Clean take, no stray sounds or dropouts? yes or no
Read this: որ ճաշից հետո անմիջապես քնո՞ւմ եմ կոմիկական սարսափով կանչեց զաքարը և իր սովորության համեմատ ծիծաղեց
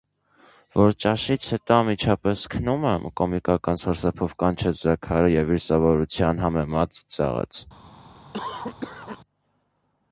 no